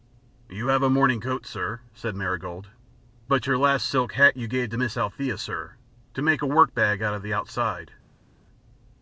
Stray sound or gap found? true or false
false